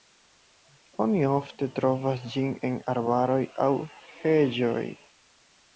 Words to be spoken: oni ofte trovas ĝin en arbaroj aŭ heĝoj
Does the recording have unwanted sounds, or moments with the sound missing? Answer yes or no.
no